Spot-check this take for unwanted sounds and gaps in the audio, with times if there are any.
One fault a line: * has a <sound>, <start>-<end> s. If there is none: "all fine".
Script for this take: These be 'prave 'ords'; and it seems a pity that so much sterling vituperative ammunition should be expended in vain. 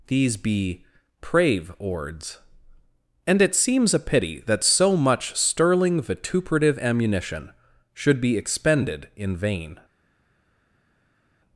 all fine